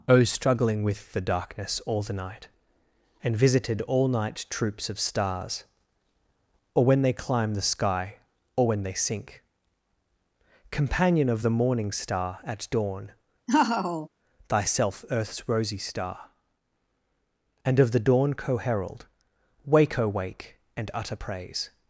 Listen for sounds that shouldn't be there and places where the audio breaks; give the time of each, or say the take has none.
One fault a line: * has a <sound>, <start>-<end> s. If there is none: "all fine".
* has a laugh, 13.5-14.1 s